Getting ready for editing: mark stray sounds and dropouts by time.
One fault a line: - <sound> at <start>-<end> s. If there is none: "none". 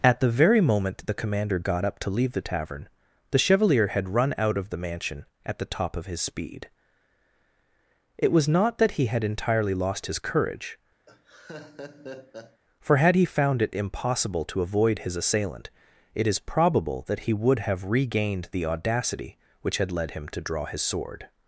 - laugh at 11.1-12.6 s